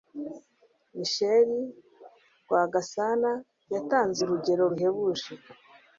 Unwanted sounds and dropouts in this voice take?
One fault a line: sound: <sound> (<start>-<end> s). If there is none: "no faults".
no faults